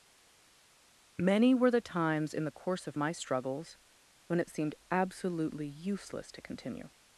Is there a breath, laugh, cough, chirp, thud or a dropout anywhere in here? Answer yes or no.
no